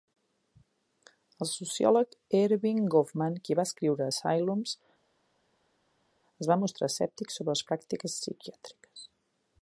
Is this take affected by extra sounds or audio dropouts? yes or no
no